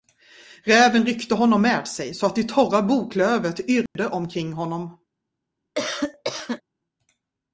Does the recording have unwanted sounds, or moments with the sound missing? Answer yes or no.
yes